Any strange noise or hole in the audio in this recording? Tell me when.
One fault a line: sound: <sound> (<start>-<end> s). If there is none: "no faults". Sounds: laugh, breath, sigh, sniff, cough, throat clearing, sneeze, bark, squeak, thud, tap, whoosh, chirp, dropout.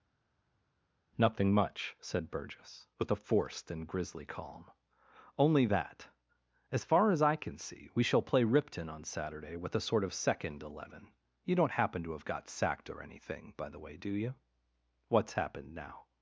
no faults